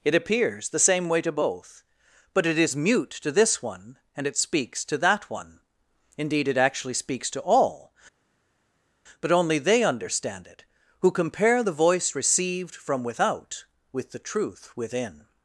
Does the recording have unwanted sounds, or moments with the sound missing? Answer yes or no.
no